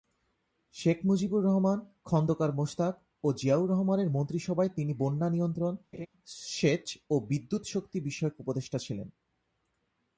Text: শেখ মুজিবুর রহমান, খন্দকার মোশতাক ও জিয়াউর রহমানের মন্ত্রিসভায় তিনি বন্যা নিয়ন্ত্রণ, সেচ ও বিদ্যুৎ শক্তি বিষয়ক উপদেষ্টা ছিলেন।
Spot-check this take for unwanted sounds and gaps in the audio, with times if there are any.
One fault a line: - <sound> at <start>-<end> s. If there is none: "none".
- laugh at 5.9-6.1 s